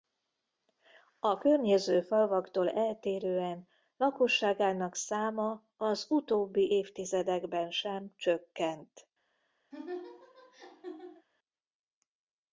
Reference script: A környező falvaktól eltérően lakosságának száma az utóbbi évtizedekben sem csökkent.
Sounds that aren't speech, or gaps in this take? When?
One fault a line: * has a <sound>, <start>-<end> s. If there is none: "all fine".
* has a laugh, 9.7-11.3 s